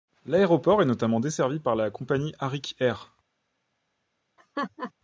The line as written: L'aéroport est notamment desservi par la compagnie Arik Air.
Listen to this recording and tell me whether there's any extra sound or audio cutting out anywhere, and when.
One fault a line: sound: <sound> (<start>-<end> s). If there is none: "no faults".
sound: laugh (4.4-4.9 s)